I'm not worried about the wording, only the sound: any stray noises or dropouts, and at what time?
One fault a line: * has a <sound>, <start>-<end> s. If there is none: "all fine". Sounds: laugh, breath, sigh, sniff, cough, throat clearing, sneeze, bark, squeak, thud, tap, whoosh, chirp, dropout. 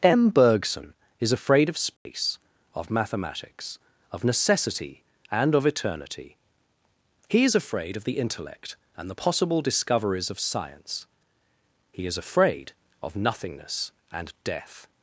* has a dropout, 2.0-2.1 s